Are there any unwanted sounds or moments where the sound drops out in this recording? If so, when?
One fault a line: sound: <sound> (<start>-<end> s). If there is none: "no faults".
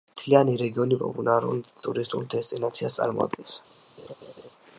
sound: laugh (4.0-4.5 s)